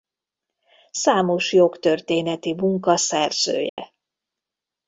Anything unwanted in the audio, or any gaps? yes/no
yes